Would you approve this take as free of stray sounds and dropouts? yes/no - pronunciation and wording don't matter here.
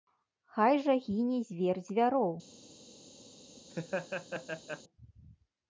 no